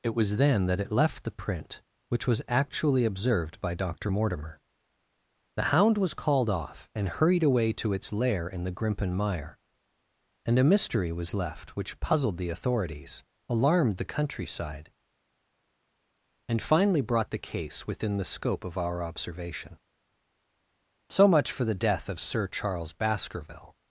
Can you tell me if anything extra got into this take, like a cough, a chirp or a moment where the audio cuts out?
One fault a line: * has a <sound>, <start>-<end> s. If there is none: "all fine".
all fine